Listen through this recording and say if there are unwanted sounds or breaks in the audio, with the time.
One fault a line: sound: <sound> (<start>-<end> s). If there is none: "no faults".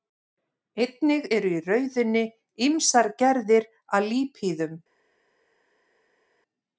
no faults